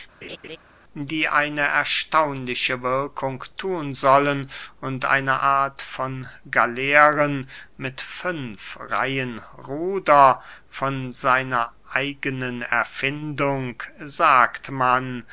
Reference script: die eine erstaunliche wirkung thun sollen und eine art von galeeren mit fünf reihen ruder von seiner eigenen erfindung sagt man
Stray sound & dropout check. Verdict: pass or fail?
fail